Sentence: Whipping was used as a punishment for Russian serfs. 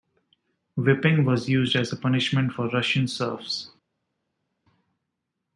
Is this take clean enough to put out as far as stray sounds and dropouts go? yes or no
yes